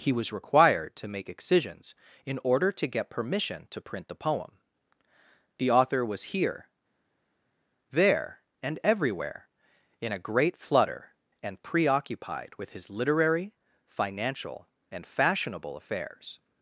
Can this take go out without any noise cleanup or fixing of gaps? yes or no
yes